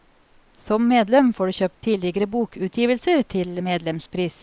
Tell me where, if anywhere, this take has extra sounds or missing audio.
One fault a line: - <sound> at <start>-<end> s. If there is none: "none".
none